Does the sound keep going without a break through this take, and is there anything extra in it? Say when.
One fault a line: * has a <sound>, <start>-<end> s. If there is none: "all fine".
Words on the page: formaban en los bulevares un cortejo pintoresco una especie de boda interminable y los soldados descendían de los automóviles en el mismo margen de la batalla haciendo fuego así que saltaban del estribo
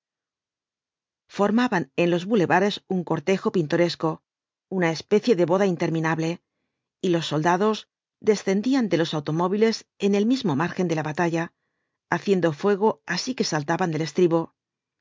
all fine